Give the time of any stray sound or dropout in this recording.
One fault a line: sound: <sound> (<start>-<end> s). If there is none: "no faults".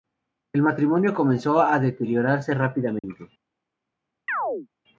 sound: dropout (3.0-3.0 s)
sound: chirp (4.3-4.7 s)